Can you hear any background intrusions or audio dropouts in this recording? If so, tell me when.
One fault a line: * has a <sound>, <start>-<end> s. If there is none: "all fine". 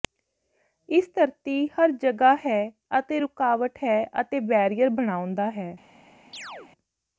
* has a chirp, 6.3-6.7 s